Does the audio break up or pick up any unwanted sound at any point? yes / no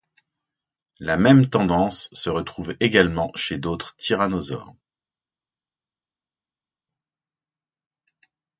no